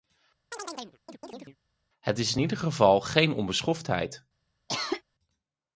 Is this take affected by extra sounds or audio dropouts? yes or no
yes